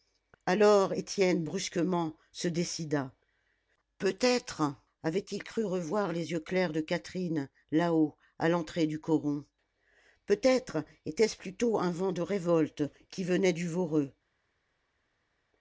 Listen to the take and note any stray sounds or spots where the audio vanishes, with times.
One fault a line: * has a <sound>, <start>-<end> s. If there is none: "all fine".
all fine